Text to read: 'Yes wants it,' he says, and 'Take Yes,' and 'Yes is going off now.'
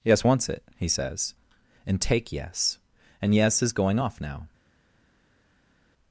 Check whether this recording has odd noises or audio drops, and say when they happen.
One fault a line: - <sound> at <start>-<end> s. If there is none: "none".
none